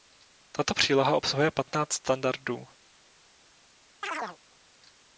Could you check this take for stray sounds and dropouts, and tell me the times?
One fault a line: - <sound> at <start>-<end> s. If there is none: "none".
- chirp at 4.0-4.4 s